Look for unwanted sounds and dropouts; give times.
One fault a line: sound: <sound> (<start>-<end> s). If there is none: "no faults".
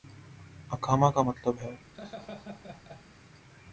sound: laugh (1.9-3.0 s)